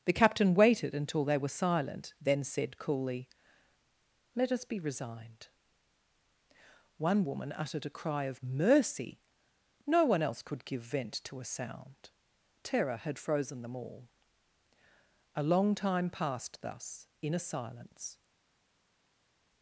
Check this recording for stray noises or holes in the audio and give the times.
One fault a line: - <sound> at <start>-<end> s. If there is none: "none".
none